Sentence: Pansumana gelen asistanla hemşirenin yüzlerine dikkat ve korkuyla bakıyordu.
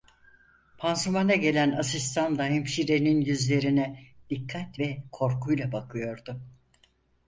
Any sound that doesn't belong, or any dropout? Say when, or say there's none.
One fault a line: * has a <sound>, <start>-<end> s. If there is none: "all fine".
all fine